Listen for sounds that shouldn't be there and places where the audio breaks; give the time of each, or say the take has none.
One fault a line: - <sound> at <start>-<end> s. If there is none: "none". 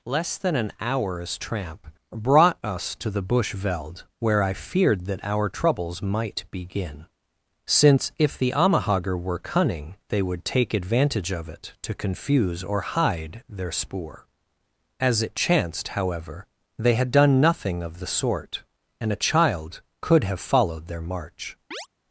- chirp at 21.7-21.9 s